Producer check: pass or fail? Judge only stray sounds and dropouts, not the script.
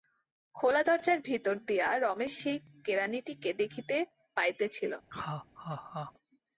fail